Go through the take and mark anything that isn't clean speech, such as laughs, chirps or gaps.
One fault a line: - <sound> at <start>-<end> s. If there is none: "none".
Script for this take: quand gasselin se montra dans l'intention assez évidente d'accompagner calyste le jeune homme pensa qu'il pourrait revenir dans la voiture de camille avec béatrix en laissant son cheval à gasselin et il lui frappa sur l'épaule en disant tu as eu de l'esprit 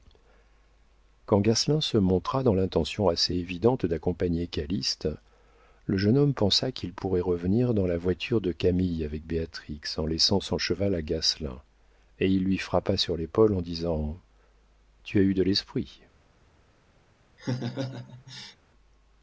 - laugh at 17.4-18.6 s